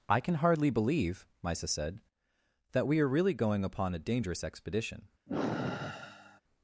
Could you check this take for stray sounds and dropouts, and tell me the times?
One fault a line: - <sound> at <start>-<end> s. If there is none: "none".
- sigh at 5.3-6.4 s